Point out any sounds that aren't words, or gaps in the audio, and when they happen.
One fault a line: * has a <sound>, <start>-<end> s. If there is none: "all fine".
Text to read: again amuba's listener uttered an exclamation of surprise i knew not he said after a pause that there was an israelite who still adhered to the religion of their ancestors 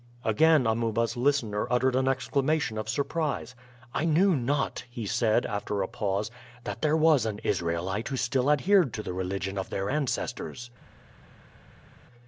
all fine